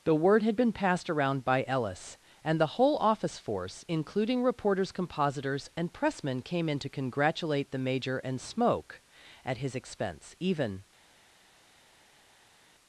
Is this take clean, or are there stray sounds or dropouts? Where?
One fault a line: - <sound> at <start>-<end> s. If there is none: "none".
none